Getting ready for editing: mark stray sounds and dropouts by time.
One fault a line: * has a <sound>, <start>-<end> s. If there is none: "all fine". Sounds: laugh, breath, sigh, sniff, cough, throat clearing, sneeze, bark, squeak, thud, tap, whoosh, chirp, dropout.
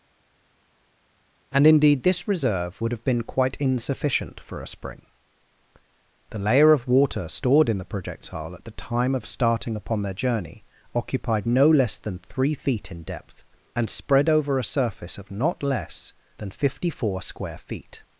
all fine